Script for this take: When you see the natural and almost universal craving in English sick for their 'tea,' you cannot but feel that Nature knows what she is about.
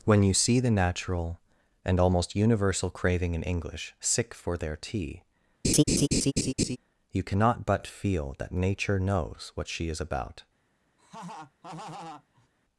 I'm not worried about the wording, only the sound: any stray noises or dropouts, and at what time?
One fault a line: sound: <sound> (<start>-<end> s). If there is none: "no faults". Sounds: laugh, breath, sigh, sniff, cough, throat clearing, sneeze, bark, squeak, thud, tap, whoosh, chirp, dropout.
sound: laugh (5.6-6.8 s)
sound: laugh (11.0-12.5 s)